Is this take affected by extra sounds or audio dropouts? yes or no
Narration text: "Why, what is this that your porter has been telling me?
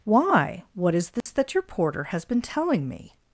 yes